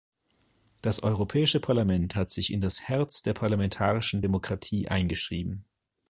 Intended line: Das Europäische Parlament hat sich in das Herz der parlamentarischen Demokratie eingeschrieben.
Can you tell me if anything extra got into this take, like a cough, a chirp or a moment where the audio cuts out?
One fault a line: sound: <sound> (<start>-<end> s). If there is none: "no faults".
no faults